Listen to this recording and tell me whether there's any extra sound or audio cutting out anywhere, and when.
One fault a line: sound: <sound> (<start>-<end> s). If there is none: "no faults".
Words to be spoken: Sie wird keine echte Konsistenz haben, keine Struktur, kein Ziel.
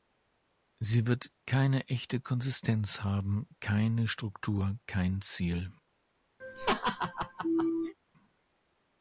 sound: laugh (6.4-7.9 s)